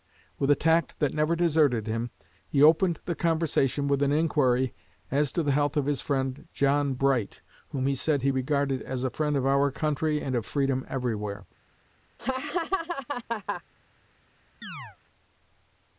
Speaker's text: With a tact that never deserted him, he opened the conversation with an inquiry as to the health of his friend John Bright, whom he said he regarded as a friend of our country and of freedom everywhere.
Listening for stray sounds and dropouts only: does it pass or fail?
fail